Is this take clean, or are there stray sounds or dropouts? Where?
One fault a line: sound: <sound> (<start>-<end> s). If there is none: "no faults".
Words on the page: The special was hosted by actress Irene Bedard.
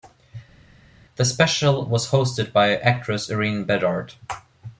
no faults